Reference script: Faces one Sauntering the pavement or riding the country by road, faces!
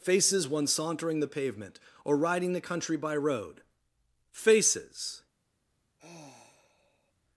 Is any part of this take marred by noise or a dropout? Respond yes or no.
yes